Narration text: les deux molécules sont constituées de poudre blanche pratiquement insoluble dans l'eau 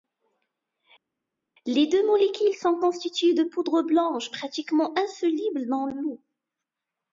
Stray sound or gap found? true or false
false